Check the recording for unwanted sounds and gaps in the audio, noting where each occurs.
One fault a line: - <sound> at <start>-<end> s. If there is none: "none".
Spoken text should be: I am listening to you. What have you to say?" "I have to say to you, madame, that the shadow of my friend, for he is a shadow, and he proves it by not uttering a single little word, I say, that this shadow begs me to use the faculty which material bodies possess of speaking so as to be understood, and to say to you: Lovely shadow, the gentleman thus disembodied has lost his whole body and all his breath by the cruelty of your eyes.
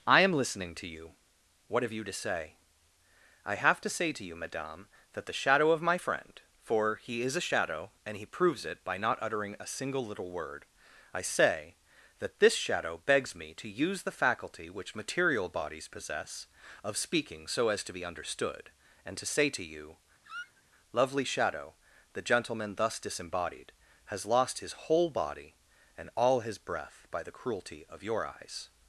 - squeak at 20.2-20.6 s